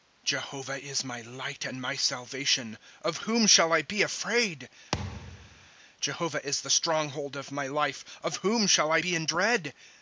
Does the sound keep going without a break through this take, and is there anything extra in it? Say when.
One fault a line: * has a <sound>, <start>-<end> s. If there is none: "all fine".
* has a thud, 4.9-5.7 s